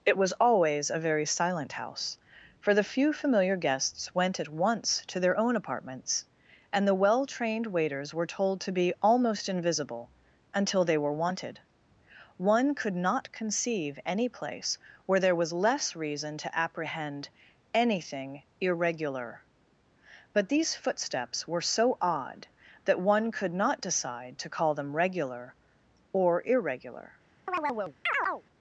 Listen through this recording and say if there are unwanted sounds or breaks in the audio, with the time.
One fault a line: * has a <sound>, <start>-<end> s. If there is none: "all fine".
* has a chirp, 27.5-28.4 s